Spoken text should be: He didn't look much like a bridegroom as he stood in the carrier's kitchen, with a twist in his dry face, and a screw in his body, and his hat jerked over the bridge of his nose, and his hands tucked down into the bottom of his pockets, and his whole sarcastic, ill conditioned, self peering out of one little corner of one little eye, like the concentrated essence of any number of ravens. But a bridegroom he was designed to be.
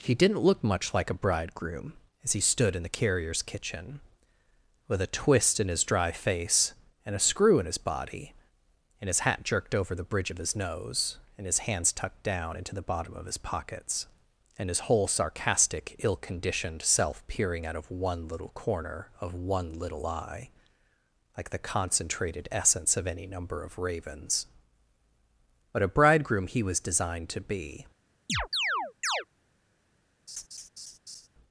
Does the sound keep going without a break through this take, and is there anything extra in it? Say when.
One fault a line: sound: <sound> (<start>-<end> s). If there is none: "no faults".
sound: chirp (28.3-29.3 s)
sound: laugh (30.3-31.3 s)